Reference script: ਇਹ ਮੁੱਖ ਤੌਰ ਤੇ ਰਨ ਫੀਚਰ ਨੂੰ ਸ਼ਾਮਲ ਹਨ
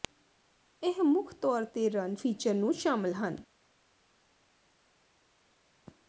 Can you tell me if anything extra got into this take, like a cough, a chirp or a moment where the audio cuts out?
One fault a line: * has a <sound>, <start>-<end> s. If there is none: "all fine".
all fine